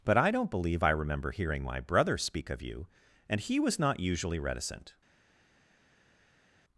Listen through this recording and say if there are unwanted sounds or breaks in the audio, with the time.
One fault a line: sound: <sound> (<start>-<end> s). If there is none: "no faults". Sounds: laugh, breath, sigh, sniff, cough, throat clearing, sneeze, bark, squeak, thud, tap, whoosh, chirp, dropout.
no faults